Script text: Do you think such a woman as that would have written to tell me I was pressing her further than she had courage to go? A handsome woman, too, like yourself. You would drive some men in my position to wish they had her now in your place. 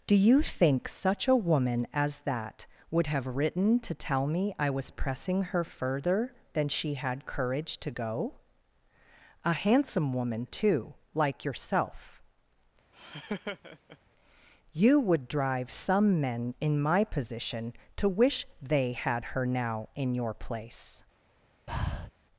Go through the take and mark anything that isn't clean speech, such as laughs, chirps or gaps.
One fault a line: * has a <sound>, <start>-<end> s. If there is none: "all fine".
* has a laugh, 12.9-14.0 s
* has a breath, 21.7-22.1 s